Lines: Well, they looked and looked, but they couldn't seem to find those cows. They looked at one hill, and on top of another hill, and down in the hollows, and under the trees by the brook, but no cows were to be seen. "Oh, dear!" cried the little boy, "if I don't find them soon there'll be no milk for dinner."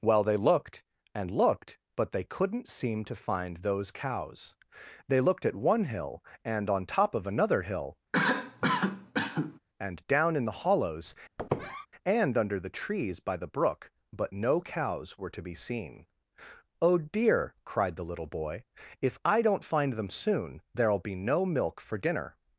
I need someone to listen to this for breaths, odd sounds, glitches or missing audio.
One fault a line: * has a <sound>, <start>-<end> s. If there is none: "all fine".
* has a cough, 8.1-9.6 s
* has a squeak, 11.4-11.9 s